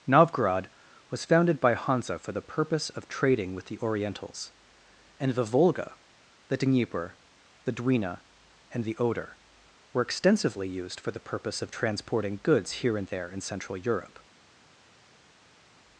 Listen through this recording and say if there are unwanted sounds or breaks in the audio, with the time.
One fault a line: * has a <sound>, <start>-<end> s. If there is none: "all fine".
all fine